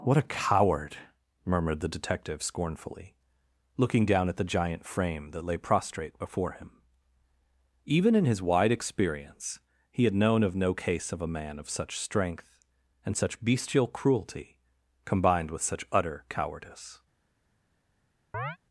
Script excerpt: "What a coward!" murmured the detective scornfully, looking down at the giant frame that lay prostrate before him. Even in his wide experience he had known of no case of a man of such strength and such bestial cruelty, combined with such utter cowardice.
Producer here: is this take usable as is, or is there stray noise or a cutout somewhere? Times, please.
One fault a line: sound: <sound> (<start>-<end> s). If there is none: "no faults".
sound: chirp (18.3-18.6 s)